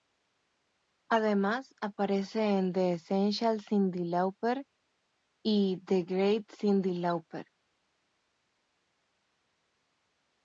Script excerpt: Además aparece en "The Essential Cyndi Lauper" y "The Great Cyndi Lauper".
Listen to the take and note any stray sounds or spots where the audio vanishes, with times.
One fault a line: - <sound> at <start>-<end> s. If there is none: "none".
none